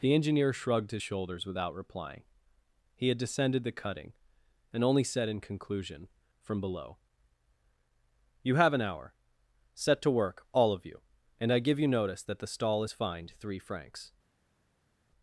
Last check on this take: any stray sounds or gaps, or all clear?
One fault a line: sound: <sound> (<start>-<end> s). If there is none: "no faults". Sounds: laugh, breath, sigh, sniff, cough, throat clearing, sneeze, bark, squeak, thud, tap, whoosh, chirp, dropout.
no faults